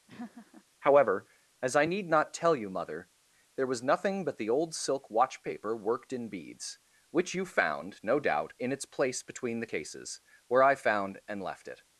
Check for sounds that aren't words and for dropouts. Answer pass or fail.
fail